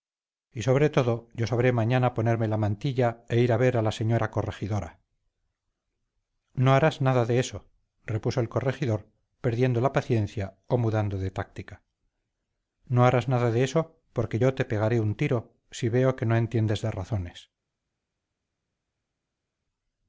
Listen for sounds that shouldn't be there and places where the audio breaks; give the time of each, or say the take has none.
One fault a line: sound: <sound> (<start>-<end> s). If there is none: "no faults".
no faults